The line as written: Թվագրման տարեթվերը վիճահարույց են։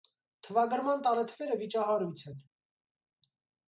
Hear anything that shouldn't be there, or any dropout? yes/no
no